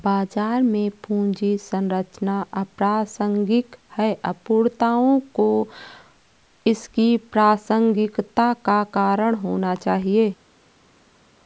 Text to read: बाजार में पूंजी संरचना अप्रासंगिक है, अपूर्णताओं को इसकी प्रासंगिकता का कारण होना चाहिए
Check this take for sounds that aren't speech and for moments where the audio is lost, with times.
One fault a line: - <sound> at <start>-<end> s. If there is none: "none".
none